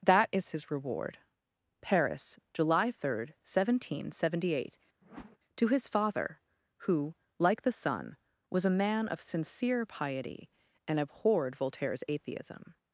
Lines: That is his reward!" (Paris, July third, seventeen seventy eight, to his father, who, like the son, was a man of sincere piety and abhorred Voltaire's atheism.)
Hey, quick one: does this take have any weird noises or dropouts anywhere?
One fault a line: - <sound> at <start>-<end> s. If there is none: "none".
- whoosh at 5.0-5.4 s